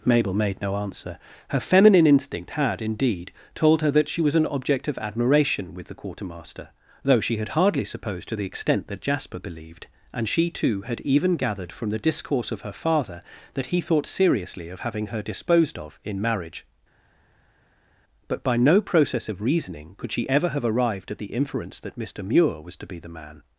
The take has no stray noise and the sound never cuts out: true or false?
true